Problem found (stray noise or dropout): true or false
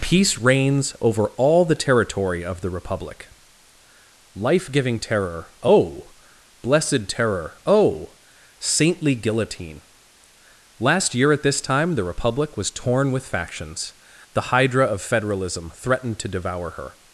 false